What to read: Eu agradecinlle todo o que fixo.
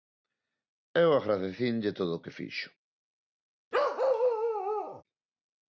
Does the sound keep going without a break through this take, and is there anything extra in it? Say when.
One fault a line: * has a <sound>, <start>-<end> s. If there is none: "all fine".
* has a bark, 3.7-5.0 s